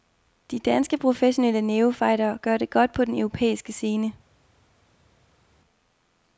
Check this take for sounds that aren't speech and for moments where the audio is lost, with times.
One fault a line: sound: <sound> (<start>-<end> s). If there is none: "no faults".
no faults